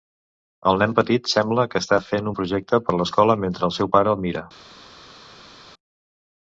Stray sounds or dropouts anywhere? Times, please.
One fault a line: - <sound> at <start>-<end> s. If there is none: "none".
none